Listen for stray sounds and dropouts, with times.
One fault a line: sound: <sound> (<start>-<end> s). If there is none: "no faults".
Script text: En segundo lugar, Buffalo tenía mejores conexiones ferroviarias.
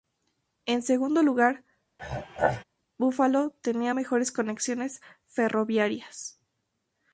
sound: throat clearing (2.0-2.6 s)